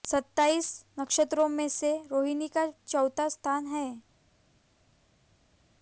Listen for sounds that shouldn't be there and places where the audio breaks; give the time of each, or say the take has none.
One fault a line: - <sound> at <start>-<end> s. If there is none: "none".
none